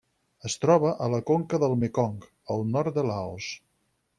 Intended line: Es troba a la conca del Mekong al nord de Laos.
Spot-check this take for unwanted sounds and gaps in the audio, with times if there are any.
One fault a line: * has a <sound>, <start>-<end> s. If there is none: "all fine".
all fine